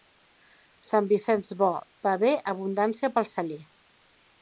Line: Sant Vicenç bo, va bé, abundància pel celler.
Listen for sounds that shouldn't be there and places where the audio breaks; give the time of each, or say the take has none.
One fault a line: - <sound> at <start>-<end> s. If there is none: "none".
none